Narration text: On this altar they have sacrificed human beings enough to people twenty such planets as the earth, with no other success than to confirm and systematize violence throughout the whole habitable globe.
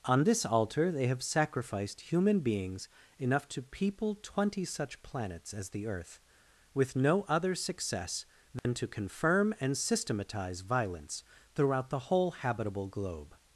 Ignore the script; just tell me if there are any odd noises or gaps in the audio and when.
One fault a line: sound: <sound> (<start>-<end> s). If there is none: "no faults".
sound: dropout (8.6-8.6 s)